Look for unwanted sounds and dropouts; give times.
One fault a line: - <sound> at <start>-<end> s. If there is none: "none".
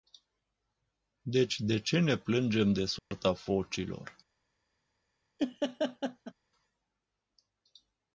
- dropout at 3.0-3.1 s
- laugh at 5.4-6.3 s